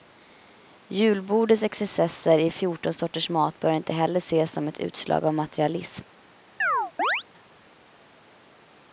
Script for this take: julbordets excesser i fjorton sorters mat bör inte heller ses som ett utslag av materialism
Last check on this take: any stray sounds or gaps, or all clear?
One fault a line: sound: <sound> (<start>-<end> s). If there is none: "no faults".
sound: chirp (6.6-7.2 s)